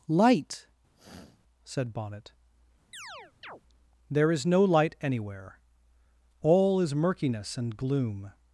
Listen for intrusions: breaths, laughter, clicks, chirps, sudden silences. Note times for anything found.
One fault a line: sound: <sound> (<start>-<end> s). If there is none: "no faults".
sound: sniff (0.9-1.4 s)
sound: chirp (2.9-3.6 s)